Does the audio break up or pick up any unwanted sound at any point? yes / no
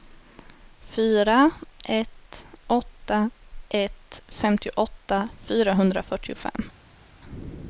no